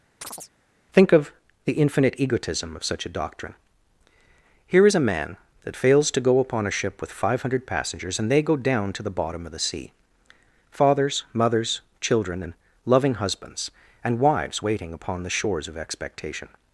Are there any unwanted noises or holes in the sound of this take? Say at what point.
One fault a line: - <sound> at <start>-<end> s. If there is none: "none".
- chirp at 0.2-0.5 s